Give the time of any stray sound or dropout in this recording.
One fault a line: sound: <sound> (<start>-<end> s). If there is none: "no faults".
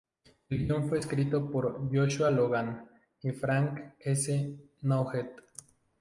no faults